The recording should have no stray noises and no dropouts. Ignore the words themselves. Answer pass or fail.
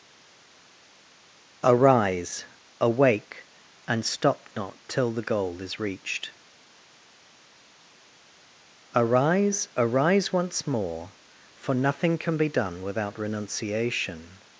pass